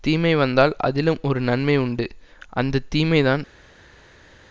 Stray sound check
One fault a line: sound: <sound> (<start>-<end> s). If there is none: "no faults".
no faults